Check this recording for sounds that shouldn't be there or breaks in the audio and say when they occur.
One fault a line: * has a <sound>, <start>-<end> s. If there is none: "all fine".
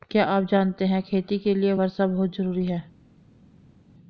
all fine